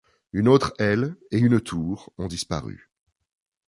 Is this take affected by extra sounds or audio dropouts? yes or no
no